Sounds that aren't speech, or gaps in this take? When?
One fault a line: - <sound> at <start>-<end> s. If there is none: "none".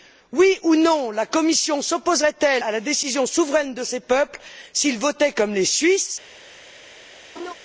- laugh at 7.3-7.5 s